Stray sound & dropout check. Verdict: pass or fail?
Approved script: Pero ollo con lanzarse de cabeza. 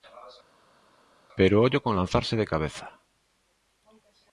pass